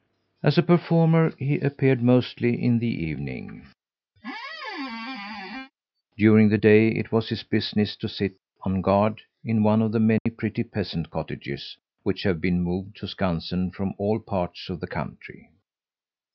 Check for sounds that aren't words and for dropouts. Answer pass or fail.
fail